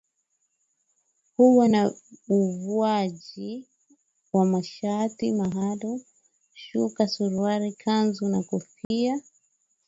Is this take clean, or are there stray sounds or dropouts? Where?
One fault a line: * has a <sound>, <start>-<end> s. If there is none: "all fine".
* has a dropout, 8.8-8.9 s